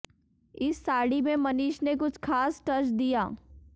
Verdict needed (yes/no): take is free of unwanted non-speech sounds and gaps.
yes